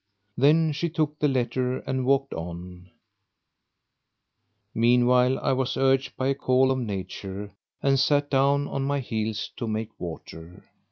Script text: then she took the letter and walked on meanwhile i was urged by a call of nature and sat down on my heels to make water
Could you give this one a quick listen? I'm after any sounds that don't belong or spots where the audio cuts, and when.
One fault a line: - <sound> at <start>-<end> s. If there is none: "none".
none